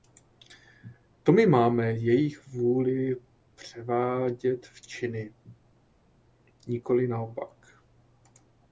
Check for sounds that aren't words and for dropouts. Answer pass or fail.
pass